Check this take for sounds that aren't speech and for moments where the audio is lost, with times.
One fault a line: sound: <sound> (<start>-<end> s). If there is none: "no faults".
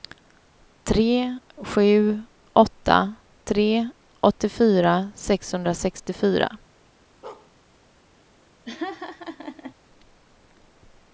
sound: bark (7.2-7.5 s)
sound: laugh (8.7-9.7 s)